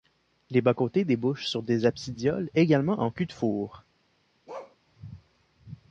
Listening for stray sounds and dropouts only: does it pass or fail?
fail